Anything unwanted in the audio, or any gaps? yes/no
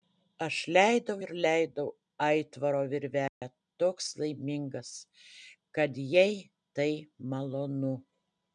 yes